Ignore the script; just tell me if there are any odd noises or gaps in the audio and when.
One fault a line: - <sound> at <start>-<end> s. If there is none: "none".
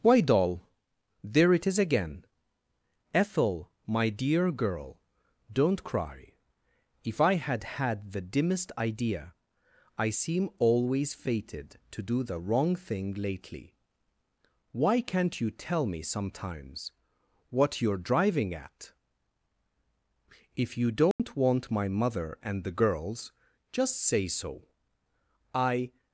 - dropout at 21.1-21.2 s